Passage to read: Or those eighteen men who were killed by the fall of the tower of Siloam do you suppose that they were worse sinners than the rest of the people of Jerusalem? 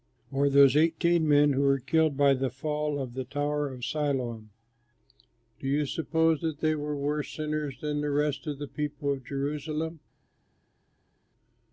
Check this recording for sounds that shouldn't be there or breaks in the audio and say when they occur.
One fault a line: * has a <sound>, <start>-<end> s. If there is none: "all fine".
all fine